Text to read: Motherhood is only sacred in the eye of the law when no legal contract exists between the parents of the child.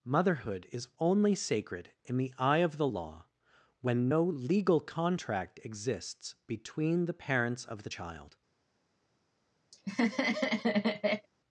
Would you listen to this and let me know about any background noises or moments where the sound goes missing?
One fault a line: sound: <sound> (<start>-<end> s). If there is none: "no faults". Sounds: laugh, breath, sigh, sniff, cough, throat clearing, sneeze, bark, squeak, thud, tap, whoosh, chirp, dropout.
sound: laugh (9.7-11.3 s)